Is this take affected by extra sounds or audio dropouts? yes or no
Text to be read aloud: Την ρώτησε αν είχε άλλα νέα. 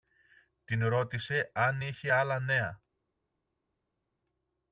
no